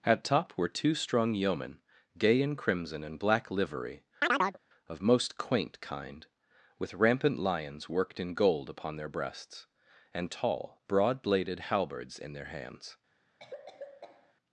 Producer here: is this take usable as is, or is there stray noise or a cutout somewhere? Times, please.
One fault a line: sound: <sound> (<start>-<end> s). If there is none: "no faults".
sound: chirp (4.2-4.6 s)
sound: cough (13.4-14.3 s)